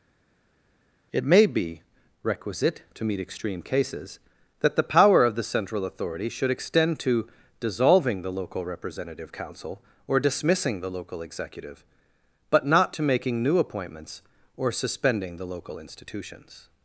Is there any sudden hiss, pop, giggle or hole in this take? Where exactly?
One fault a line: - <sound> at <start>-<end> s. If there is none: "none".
none